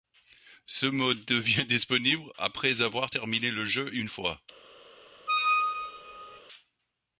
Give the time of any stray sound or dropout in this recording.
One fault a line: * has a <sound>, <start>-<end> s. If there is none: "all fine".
* has a squeak, 5.3-6.4 s